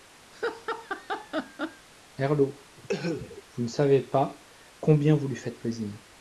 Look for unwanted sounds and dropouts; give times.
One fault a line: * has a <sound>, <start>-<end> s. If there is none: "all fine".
* has a laugh, 0.3-1.9 s
* has a cough, 2.8-3.4 s